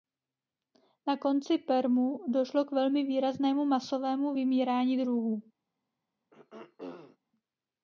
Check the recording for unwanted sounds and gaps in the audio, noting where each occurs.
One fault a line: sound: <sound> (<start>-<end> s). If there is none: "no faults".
sound: throat clearing (6.3-7.2 s)